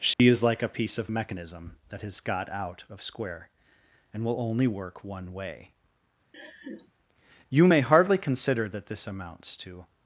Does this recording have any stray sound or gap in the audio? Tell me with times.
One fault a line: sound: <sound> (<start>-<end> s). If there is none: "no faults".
sound: dropout (0.1-0.2 s)
sound: laugh (6.3-6.9 s)